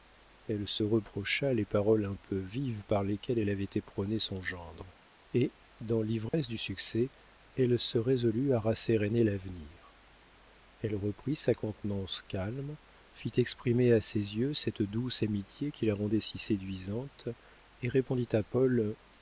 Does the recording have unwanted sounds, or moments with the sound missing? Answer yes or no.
yes